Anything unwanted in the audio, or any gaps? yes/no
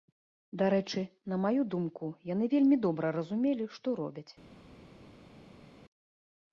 no